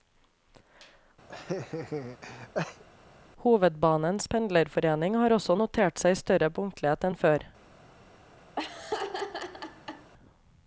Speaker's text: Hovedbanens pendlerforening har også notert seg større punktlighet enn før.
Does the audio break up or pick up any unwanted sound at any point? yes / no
yes